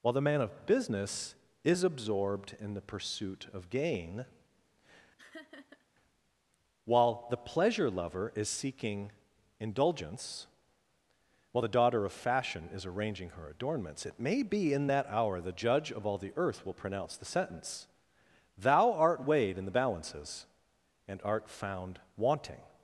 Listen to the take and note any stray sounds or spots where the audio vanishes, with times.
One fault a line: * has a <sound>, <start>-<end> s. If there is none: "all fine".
* has a laugh, 5.2-5.9 s